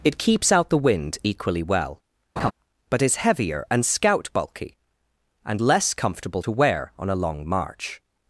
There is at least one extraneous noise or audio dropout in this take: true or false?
true